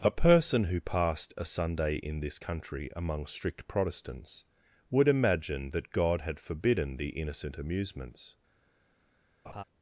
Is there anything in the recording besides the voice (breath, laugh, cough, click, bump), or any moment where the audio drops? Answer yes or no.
yes